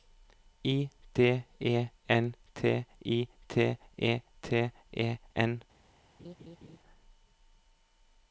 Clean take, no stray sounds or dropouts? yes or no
no